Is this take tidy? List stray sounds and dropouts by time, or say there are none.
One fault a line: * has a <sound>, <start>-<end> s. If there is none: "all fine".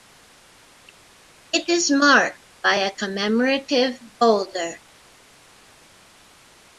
all fine